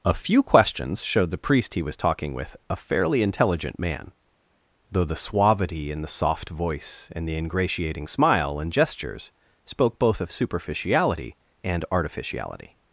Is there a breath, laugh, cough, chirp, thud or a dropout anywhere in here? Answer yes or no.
no